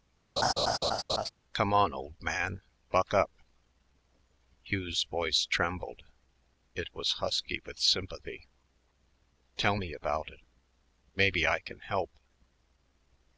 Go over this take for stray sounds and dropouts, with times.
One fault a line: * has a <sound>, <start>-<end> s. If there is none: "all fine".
* has a laugh, 0.4-1.3 s